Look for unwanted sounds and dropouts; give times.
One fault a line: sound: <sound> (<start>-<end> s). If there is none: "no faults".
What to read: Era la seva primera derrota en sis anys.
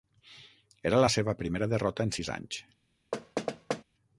sound: thud (3.1-3.8 s)